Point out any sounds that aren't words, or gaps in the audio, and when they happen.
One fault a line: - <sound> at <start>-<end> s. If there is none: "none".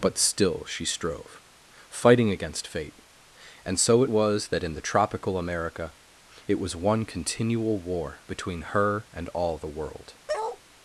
- bark at 10.3-10.6 s